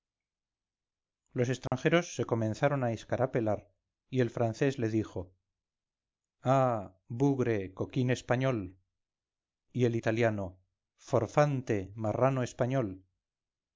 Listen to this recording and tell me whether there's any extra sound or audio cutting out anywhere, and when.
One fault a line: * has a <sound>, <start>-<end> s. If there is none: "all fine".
* has a dropout, 1.7-1.7 s